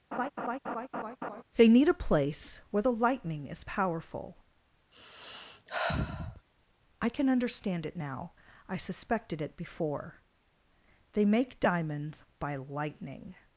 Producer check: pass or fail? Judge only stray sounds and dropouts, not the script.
fail